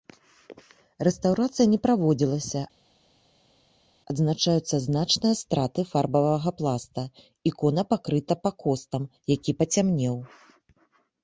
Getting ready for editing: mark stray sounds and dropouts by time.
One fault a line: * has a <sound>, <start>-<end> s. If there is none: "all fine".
all fine